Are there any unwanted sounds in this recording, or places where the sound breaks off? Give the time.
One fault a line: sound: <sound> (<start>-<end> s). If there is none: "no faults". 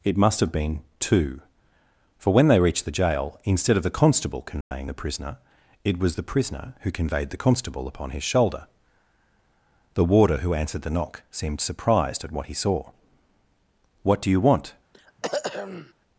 sound: dropout (4.6-4.7 s)
sound: throat clearing (14.9-15.9 s)